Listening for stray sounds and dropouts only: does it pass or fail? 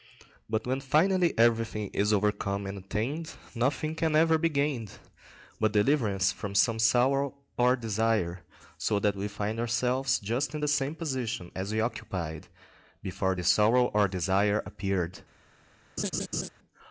fail